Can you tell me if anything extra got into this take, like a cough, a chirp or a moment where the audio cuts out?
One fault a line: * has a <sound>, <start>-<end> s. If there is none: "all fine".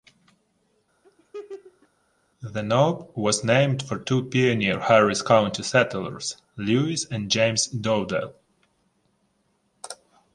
* has a laugh, 1.0-1.9 s